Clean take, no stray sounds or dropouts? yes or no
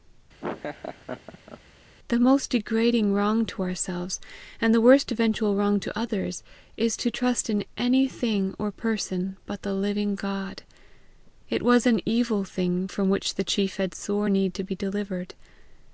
no